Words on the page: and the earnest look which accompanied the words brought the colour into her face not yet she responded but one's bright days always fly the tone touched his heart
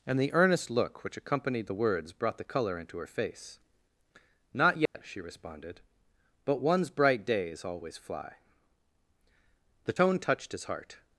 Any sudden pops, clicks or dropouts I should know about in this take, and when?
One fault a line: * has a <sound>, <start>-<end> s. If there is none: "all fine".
* has a dropout, 4.9-4.9 s